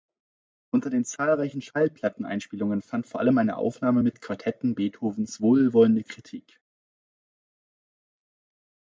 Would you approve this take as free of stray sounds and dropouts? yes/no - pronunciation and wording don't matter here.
yes